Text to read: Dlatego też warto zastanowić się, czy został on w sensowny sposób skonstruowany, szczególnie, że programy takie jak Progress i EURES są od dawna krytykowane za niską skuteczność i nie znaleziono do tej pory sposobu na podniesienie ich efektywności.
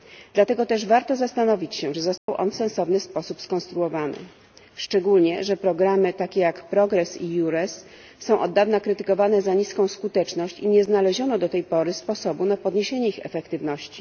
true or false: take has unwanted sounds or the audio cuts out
true